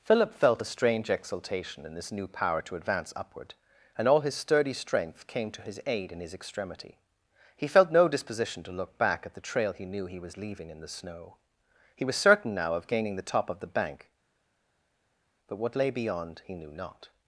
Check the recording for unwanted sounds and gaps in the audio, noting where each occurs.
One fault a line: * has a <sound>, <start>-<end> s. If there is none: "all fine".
all fine